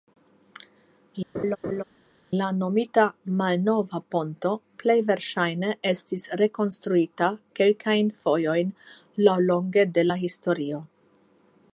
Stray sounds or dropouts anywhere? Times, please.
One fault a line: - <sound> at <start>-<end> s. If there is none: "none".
- laugh at 1.3-1.8 s